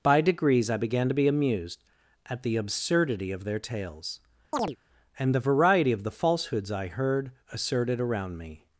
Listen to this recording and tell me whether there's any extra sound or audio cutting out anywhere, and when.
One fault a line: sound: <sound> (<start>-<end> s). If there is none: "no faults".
sound: chirp (4.5-4.8 s)